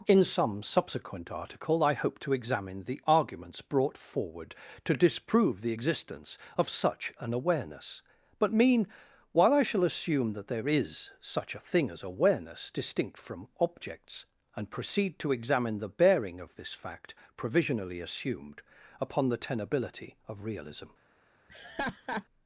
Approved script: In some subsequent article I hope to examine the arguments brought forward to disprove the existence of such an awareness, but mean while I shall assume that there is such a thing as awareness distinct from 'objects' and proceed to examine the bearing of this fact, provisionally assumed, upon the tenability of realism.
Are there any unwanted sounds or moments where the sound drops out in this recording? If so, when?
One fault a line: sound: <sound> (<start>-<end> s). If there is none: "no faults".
sound: laugh (21.5-22.2 s)